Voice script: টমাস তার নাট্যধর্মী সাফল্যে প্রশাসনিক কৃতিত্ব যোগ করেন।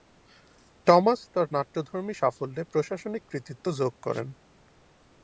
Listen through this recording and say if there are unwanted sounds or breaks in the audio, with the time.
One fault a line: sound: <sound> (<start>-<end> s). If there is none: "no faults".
no faults